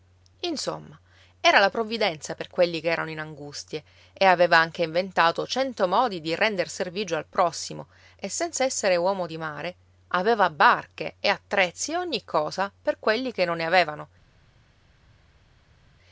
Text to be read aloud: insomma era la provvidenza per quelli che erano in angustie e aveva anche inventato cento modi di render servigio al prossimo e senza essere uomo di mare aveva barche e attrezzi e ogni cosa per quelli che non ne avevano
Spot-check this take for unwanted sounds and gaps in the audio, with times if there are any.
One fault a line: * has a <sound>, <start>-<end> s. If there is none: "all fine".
all fine